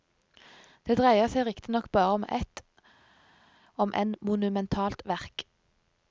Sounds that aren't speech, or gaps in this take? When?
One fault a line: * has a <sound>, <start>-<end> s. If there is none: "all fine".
all fine